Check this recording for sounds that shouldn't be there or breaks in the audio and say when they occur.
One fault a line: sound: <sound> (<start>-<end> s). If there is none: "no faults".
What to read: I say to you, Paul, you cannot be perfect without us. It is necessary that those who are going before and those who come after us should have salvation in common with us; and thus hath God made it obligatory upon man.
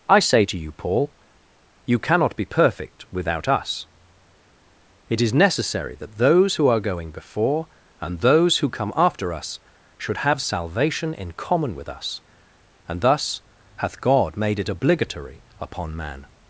no faults